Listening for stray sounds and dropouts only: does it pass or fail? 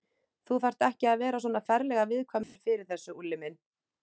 fail